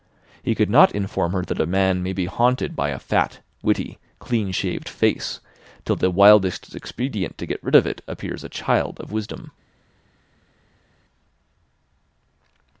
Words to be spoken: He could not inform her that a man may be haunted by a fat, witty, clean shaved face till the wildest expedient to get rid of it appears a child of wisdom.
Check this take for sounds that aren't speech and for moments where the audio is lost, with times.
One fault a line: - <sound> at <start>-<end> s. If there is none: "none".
none